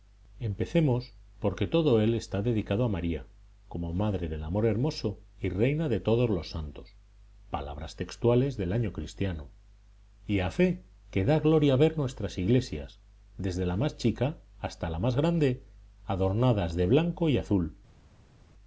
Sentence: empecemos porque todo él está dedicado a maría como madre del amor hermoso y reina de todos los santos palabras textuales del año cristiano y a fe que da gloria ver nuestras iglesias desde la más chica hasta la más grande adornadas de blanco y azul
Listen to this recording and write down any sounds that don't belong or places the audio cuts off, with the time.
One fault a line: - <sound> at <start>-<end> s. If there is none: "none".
none